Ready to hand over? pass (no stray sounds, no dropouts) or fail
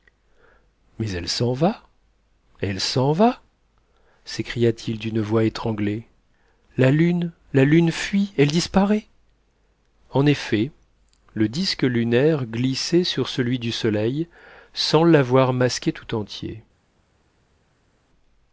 pass